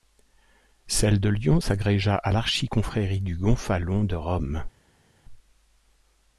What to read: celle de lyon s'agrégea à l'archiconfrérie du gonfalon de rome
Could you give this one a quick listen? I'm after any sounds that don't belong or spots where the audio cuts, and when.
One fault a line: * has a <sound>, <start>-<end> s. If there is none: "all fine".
all fine